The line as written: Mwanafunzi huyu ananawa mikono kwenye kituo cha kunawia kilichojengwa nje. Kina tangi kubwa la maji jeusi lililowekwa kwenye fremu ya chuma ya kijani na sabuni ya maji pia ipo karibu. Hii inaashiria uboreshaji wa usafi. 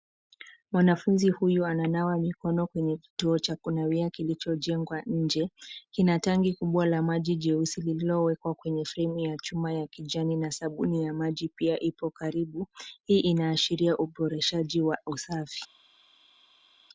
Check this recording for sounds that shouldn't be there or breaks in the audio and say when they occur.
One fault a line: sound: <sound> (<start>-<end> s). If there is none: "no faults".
no faults